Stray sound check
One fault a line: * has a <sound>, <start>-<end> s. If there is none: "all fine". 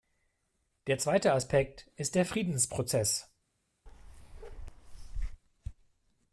* has a bark, 3.9-5.4 s